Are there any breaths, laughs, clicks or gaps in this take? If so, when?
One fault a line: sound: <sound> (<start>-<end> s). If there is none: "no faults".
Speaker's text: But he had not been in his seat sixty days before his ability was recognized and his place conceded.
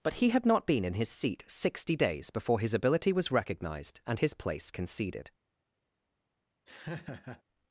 sound: laugh (6.7-7.4 s)